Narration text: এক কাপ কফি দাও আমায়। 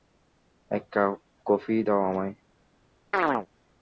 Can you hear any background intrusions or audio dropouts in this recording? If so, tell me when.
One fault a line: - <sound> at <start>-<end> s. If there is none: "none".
- chirp at 3.1-3.5 s